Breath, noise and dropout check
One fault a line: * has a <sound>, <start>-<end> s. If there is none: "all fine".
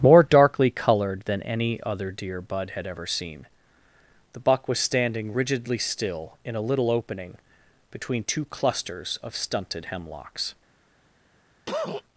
* has a cough, 11.7-12.0 s